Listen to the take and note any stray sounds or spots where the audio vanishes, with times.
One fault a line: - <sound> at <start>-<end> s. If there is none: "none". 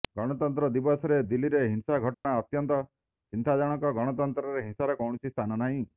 - dropout at 2.1-2.2 s